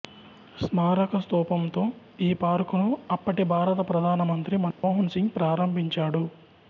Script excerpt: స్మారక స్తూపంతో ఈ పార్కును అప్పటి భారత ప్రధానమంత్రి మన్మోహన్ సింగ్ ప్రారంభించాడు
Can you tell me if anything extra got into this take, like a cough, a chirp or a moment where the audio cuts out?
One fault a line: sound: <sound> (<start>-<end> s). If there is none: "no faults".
sound: dropout (4.7-4.8 s)